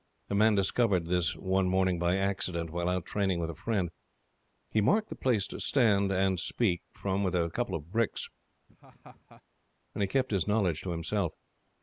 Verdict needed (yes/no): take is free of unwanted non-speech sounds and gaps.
no